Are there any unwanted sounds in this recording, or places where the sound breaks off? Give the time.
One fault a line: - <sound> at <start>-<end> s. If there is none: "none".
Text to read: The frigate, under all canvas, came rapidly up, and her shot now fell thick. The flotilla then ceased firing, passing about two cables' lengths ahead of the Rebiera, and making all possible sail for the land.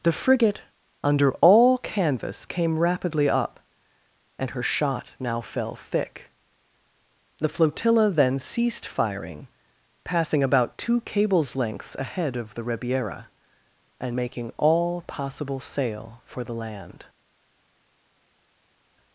none